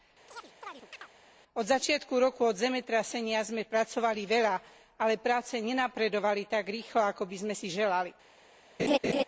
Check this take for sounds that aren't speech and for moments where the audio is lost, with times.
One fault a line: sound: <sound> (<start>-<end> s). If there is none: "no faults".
sound: chirp (0.3-1.1 s)
sound: laugh (8.8-9.2 s)